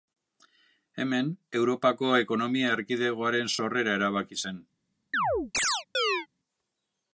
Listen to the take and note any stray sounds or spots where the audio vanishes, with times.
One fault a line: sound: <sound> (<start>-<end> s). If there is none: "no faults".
sound: chirp (5.1-6.3 s)